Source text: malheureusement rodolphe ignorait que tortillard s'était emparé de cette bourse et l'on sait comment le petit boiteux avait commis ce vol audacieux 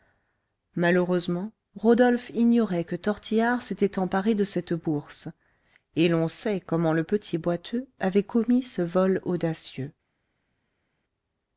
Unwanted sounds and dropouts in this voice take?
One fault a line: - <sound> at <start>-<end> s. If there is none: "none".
none